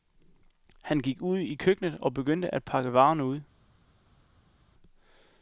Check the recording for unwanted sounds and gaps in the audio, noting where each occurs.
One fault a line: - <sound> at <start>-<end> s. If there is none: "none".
none